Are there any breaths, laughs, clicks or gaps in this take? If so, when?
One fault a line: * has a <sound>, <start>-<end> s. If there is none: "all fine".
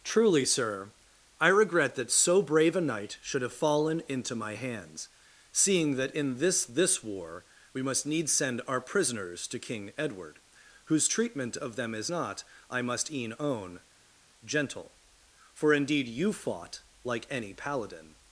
all fine